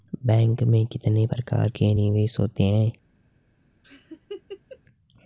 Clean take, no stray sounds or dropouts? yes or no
no